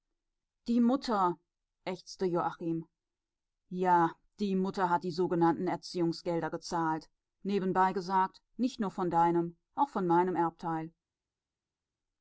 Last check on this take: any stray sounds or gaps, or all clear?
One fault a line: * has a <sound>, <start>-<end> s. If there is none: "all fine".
all fine